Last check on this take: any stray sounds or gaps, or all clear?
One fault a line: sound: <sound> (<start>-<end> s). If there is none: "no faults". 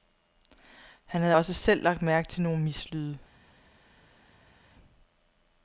no faults